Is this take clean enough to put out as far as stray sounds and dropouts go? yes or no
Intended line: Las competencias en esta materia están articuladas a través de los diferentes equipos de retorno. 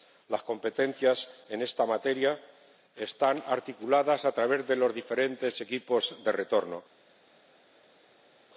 yes